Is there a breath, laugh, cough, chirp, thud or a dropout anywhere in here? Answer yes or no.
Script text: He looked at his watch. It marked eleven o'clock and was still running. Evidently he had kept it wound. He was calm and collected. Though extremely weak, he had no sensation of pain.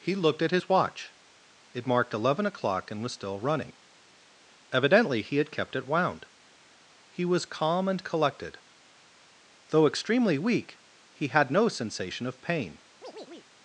yes